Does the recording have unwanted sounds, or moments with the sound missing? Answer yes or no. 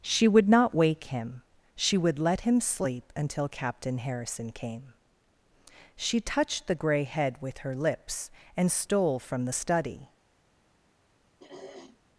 yes